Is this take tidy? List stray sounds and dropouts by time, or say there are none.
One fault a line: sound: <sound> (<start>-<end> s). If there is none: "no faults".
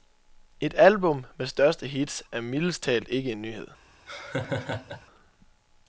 sound: laugh (4.1-5.1 s)